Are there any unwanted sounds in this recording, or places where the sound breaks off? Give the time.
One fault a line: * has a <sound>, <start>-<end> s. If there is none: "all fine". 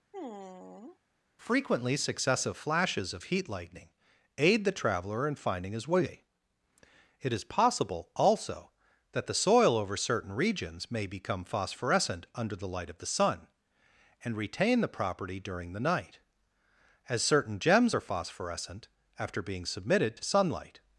* has a sigh, 0.1-1.0 s